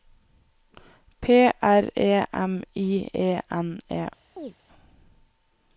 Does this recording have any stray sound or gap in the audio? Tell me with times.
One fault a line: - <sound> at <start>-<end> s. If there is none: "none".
- chirp at 4.4-4.6 s